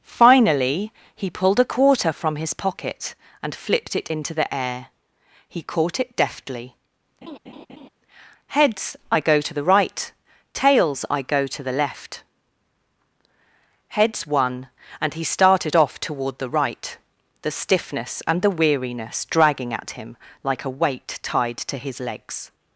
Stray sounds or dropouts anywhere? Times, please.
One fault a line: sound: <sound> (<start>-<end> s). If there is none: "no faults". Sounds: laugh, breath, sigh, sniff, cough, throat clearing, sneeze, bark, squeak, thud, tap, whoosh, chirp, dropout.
sound: laugh (7.2-7.9 s)